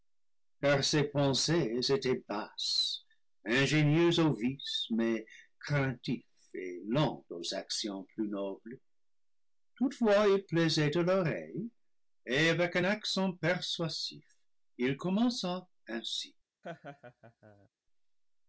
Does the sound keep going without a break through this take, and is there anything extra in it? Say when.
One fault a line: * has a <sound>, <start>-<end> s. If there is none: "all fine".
* has a laugh, 16.6-17.7 s